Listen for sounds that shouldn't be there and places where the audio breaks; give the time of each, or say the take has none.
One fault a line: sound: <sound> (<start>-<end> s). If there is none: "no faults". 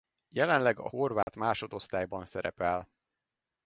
sound: dropout (1.2-1.3 s)